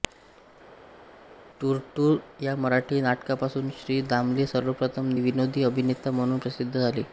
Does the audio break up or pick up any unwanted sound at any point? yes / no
no